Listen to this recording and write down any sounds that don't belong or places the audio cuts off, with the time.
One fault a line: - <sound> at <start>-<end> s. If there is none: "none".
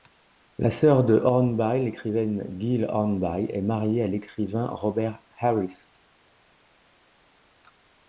none